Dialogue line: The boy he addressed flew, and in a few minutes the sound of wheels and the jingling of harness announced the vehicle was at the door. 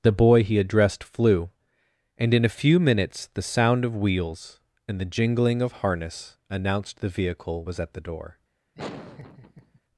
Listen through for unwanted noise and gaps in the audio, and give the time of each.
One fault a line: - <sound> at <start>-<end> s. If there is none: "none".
- laugh at 8.7-9.8 s